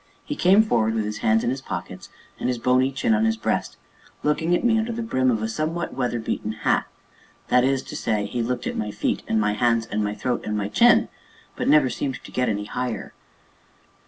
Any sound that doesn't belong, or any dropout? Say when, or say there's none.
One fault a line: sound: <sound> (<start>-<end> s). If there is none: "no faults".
no faults